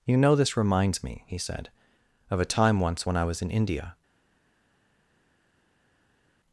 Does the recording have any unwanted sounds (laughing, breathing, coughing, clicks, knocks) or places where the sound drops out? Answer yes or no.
no